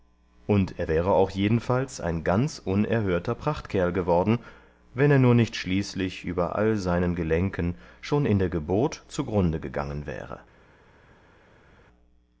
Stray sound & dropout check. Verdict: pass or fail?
pass